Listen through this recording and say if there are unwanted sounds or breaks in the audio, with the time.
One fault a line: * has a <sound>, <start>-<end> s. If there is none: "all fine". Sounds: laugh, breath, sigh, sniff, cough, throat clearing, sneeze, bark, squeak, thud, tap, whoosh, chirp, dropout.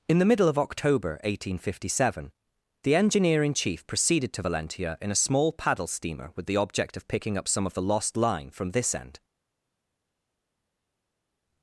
all fine